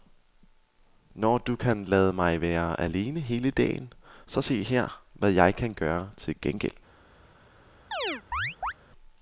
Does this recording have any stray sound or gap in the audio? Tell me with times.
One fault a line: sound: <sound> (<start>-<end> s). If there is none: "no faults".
sound: chirp (7.9-8.7 s)